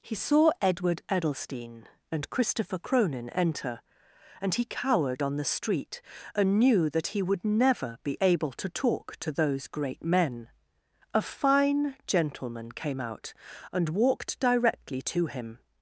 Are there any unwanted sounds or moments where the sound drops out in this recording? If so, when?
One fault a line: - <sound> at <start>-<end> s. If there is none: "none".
none